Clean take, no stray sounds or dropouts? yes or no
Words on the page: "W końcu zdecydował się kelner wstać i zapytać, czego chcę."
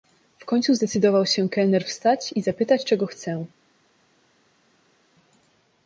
yes